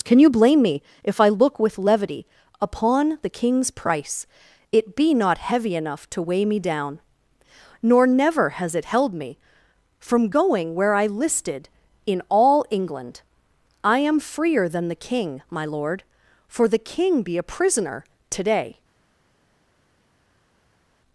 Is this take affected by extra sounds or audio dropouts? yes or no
no